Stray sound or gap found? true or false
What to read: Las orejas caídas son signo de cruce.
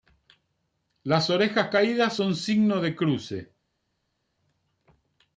false